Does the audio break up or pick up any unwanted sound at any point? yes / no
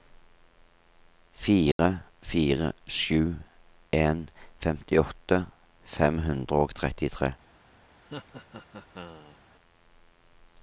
yes